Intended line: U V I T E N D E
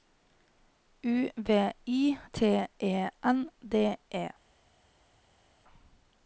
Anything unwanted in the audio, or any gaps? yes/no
no